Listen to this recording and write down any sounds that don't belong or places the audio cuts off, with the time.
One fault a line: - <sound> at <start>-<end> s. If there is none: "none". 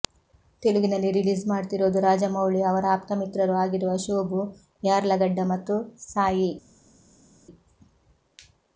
none